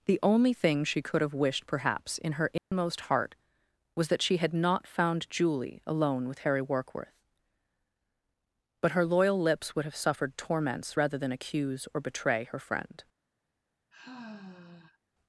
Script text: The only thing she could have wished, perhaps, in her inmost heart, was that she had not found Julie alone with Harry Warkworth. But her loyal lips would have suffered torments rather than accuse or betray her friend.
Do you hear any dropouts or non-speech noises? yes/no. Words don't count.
yes